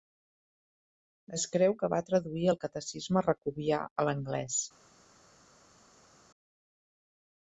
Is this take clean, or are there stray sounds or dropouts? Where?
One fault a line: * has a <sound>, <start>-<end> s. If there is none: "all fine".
all fine